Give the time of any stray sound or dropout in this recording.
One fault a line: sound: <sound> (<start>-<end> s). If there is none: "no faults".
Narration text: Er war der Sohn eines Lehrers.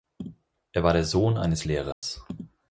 sound: dropout (1.9-2.0 s)